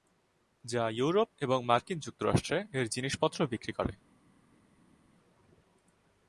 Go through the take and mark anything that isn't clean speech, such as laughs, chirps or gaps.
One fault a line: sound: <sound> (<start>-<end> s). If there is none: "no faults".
no faults